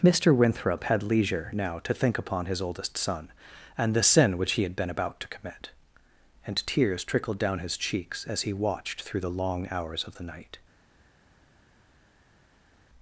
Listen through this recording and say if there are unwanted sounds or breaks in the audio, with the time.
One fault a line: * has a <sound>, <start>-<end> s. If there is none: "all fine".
all fine